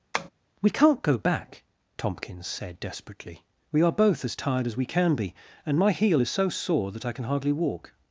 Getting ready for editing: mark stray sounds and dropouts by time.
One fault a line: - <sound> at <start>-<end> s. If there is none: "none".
- tap at 0.1-0.3 s